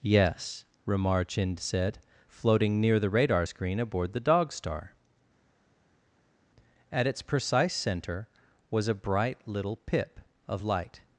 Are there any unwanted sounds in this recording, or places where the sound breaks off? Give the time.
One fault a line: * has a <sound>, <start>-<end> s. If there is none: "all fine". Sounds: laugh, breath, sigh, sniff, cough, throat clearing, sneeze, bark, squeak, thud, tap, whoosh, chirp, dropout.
all fine